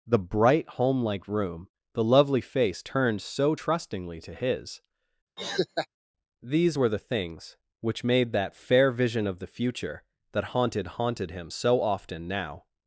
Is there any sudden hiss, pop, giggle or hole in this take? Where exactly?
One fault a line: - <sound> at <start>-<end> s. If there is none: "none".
- laugh at 5.4-5.9 s